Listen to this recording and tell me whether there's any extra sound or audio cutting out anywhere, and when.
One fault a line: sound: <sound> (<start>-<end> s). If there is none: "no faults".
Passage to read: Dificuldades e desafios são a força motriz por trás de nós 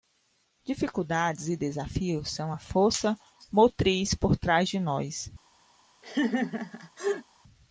sound: laugh (6.0-7.2 s)